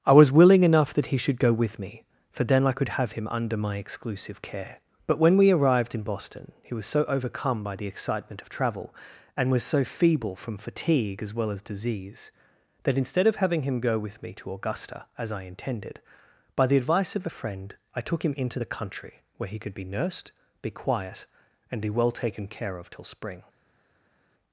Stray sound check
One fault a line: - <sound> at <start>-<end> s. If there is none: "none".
none